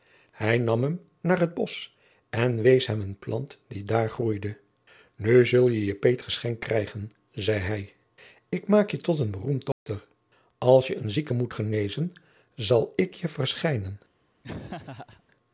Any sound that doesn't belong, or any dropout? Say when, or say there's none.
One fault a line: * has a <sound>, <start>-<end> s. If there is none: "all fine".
* has a dropout, 9.7-9.9 s
* has a laugh, 14.4-15.2 s